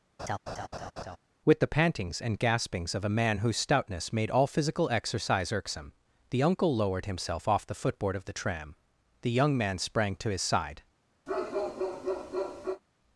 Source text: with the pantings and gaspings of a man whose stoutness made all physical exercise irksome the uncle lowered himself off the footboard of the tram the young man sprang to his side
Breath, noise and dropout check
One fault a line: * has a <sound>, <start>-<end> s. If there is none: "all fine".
* has a laugh, 0.2-1.2 s
* has a bark, 11.3-12.8 s